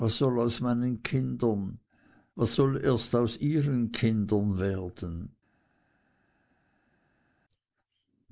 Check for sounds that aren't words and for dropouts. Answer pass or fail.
pass